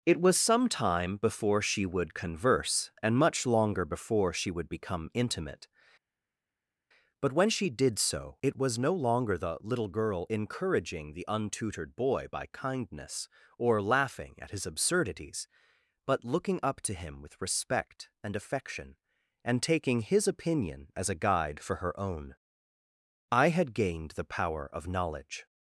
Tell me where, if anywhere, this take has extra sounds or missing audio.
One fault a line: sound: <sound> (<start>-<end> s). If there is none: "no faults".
no faults